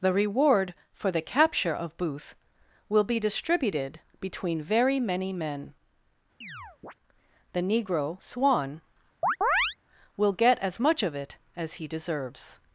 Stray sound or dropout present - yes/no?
yes